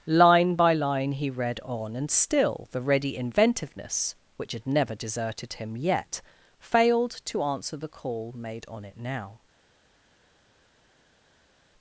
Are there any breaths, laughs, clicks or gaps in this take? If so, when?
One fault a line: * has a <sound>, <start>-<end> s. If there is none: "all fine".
all fine